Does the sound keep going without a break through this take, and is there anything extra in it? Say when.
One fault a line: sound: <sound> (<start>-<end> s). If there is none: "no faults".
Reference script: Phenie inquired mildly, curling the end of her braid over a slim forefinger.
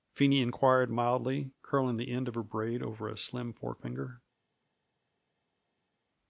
no faults